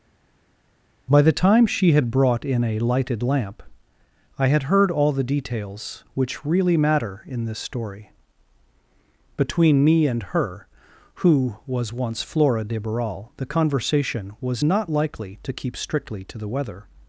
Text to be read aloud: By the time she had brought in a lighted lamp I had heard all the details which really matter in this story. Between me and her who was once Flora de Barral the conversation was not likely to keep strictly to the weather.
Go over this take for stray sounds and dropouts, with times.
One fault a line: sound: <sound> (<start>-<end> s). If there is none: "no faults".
no faults